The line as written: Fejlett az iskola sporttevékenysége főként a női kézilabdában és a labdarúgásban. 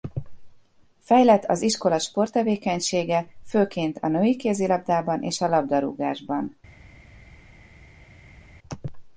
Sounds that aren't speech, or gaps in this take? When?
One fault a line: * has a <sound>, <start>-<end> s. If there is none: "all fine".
all fine